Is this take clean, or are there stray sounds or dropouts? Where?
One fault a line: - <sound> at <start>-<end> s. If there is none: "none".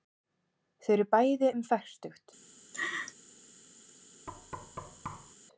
- laugh at 2.7-3.1 s
- thud at 4.3-5.4 s